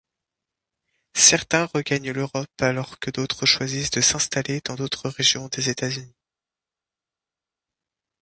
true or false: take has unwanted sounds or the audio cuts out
false